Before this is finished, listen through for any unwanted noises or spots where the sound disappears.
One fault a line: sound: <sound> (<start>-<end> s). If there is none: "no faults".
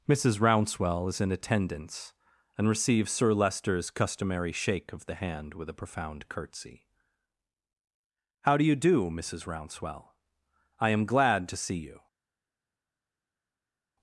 no faults